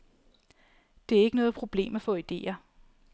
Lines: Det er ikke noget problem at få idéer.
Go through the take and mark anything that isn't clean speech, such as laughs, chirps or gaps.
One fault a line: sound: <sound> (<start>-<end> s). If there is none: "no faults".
no faults